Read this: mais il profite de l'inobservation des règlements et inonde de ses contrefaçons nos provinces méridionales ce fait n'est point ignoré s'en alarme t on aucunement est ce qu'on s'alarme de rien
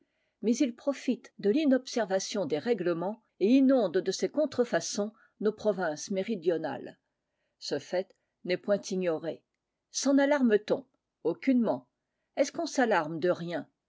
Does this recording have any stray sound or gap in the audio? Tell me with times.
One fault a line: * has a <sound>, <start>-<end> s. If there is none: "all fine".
all fine